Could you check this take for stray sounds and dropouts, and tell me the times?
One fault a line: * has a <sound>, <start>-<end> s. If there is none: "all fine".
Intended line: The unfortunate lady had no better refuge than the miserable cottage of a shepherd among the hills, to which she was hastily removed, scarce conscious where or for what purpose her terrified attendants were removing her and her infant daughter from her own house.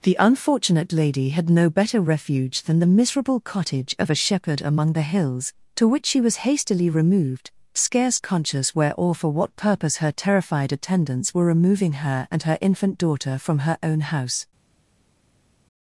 all fine